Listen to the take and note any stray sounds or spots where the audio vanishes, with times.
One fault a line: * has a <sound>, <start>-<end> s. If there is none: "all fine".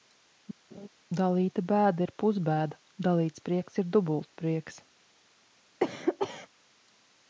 * has a laugh, 0.7-0.9 s
* has a cough, 5.8-6.5 s